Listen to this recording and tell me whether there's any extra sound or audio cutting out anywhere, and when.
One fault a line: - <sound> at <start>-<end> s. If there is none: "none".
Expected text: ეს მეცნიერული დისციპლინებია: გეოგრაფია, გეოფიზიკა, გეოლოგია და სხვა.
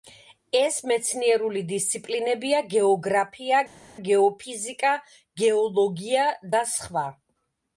none